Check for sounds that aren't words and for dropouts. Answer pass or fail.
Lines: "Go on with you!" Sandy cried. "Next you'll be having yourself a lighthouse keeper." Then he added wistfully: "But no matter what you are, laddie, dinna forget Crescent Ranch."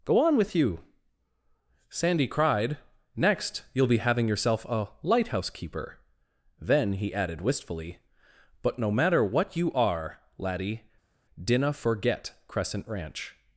pass